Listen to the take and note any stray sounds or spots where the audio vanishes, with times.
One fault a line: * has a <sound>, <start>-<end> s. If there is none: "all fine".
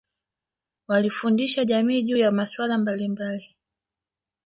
all fine